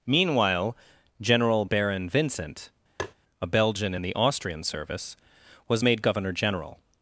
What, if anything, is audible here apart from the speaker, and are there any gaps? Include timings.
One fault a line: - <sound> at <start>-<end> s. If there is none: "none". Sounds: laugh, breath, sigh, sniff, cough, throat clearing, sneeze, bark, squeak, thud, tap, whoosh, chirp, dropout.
- tap at 3.0-3.1 s